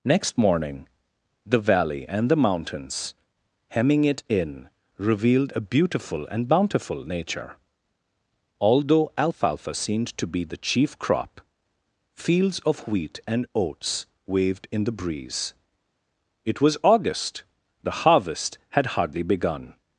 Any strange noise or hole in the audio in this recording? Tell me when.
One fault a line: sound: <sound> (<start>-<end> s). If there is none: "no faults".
no faults